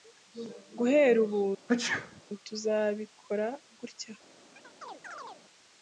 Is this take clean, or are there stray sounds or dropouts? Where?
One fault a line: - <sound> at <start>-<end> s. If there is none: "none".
- sneeze at 1.7-2.2 s
- chirp at 4.6-5.4 s